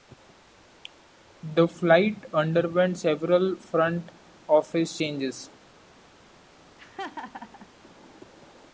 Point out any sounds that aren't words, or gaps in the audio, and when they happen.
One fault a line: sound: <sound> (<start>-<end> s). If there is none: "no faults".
sound: laugh (6.8-7.7 s)